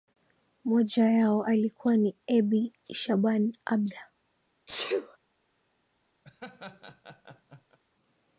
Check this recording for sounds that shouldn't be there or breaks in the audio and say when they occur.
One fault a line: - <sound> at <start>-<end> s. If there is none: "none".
- sneeze at 4.7-5.2 s
- laugh at 6.2-7.8 s